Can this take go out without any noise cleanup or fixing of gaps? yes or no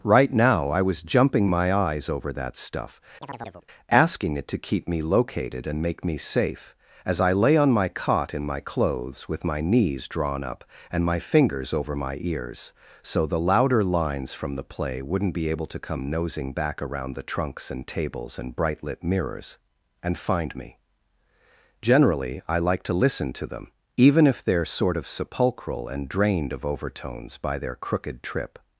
no